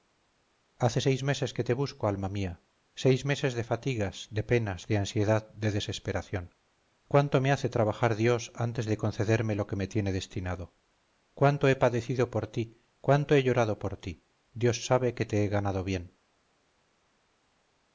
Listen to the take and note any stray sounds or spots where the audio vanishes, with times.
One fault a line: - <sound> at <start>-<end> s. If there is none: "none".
none